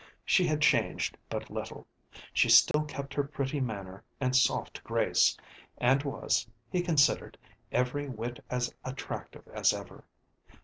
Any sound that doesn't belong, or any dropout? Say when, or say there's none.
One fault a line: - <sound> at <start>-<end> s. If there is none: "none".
- dropout at 2.7-2.7 s